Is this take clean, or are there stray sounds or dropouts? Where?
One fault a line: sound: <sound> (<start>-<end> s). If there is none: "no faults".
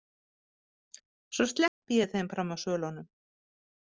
sound: dropout (1.7-1.8 s)